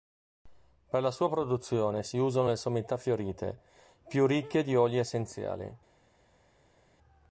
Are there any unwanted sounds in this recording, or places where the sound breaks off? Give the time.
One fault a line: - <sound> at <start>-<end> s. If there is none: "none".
none